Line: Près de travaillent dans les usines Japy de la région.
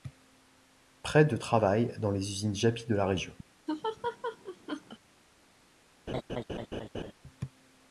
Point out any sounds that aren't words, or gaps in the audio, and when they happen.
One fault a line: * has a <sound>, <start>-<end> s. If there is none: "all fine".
* has a laugh, 3.7-5.0 s
* has a laugh, 6.1-7.1 s